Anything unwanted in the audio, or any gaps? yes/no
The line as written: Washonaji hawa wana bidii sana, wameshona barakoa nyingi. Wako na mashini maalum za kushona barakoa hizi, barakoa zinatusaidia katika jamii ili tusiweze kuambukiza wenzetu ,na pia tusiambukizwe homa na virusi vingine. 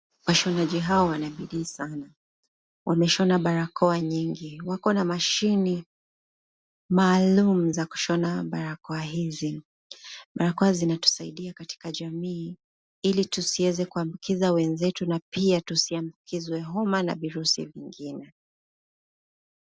no